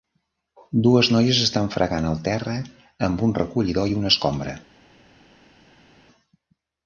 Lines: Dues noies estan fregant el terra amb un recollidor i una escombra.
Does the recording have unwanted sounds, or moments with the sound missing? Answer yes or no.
no